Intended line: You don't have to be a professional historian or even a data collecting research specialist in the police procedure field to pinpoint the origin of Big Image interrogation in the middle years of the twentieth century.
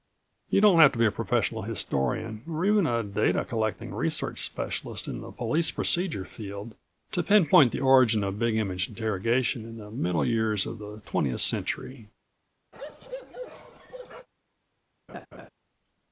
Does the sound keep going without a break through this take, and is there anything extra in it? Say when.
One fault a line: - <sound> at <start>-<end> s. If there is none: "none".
- bark at 12.7-14.3 s
- laugh at 15.1-15.5 s